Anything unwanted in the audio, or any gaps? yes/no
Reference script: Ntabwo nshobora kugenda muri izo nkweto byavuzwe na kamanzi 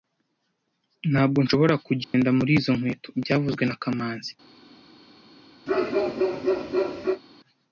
yes